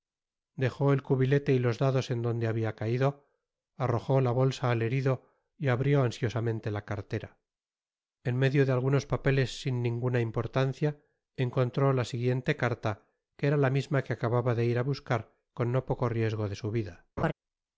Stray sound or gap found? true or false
true